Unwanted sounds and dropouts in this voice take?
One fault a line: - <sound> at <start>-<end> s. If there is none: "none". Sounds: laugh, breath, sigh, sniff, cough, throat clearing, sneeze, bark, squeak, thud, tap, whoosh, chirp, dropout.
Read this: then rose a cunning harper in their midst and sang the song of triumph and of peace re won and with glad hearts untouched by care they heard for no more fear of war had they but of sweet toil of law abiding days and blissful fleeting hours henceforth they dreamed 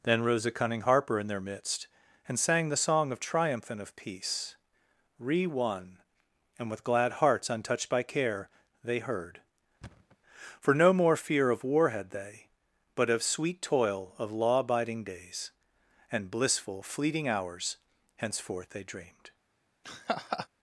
- thud at 9.8-10.2 s
- laugh at 19.8-20.5 s